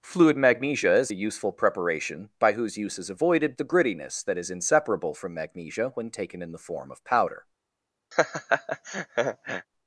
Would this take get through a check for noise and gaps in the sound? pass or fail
fail